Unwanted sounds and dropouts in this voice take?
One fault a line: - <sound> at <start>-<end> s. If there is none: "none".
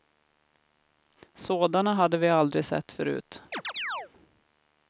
- chirp at 3.5-4.1 s